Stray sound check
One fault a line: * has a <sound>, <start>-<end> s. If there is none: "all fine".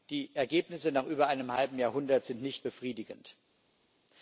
all fine